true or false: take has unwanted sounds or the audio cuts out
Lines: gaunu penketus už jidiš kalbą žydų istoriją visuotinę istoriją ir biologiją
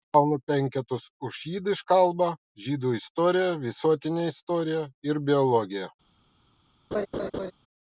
true